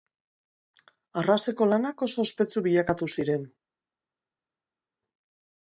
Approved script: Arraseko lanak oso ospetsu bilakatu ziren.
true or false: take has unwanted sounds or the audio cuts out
false